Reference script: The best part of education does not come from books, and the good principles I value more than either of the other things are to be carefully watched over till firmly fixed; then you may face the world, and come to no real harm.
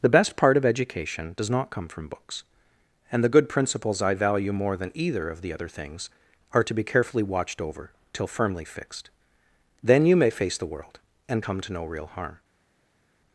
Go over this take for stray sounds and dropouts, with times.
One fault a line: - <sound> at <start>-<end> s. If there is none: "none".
none